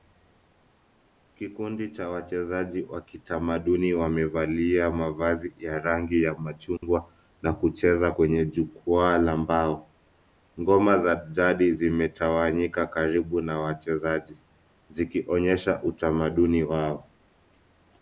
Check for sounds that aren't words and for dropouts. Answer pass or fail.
fail